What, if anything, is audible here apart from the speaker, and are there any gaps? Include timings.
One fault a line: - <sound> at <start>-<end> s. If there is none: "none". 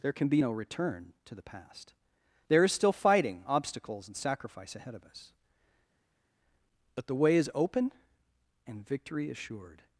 none